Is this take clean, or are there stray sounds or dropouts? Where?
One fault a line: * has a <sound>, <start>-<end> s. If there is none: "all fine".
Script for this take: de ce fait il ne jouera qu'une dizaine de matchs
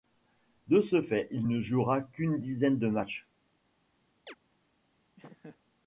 * has a chirp, 4.3-4.4 s
* has a laugh, 5.2-5.6 s